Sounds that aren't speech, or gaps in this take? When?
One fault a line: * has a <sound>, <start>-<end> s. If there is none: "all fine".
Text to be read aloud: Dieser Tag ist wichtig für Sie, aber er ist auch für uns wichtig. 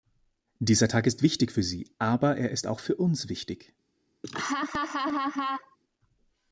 * has a laugh, 4.2-5.8 s